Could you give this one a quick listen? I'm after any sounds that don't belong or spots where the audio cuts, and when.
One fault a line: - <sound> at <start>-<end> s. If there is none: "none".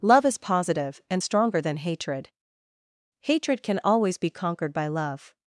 none